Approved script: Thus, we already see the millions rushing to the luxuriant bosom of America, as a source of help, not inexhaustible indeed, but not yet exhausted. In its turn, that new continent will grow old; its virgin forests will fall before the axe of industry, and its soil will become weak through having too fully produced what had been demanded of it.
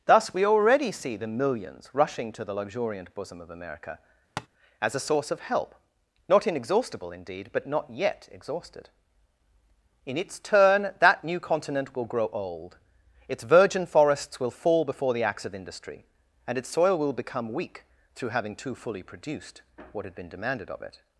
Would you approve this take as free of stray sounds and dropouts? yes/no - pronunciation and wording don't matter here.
no